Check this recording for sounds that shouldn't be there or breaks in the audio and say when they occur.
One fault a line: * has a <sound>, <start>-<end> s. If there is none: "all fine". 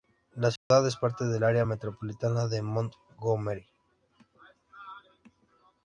* has a dropout, 0.6-0.7 s